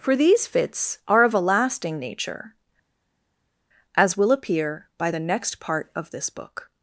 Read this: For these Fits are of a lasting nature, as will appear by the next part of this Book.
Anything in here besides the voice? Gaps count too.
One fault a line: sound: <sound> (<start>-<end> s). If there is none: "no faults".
no faults